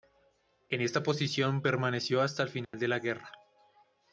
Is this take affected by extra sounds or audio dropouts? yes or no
yes